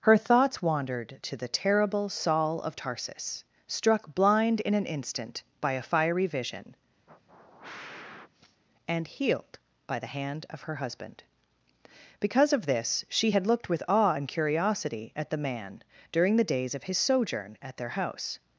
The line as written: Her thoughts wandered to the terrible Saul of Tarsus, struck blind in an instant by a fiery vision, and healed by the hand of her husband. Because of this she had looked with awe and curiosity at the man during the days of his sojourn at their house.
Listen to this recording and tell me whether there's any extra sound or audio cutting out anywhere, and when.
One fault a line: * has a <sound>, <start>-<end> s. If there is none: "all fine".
* has a sniff, 7.1-8.6 s